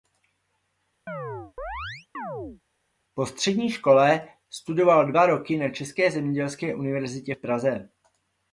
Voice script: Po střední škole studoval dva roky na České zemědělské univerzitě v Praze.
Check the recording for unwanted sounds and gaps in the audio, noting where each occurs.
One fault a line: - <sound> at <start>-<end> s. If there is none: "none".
- chirp at 1.1-2.6 s